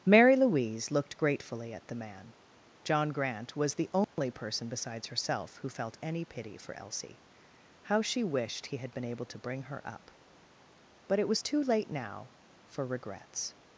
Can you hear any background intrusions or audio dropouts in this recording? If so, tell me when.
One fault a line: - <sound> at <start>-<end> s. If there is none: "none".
- dropout at 4.0-4.2 s